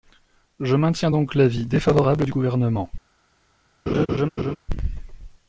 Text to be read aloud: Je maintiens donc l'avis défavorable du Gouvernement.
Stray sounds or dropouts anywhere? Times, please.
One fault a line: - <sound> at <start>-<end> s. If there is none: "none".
- laugh at 3.9-4.6 s